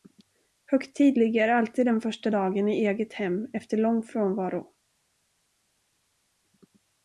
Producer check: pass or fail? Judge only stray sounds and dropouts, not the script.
pass